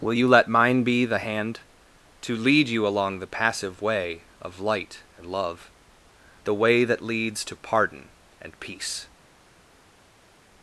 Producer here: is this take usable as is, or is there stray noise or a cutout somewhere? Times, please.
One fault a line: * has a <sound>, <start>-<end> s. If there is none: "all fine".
all fine